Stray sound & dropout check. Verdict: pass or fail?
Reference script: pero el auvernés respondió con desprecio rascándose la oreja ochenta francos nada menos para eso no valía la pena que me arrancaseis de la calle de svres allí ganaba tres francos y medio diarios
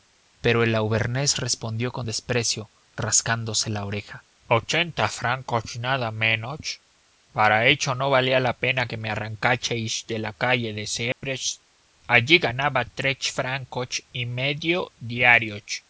fail